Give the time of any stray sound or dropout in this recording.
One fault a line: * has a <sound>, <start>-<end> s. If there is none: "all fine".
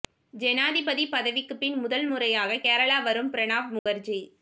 * has a dropout, 3.8-3.9 s